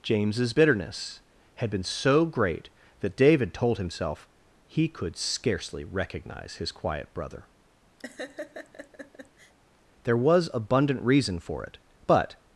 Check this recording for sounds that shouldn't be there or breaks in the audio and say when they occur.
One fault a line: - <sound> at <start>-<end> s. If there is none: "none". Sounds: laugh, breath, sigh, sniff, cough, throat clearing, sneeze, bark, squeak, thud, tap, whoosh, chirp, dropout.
- laugh at 8.0-9.5 s